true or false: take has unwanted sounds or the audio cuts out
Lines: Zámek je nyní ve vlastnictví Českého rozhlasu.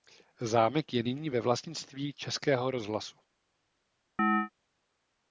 true